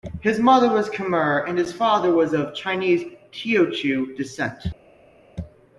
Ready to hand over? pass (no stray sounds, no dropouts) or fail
pass